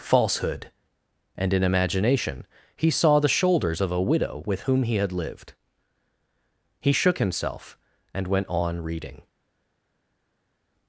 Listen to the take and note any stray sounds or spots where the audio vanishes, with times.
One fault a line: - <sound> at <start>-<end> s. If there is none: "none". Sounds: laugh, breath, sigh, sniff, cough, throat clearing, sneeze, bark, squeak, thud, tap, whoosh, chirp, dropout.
none